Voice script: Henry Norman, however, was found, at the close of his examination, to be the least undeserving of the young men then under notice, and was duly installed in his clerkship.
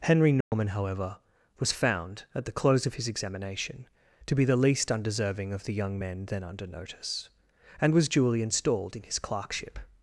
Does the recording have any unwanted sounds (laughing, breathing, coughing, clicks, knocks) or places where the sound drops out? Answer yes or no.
yes